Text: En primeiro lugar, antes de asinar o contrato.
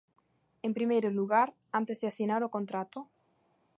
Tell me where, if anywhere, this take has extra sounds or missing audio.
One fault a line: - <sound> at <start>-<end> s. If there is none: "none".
none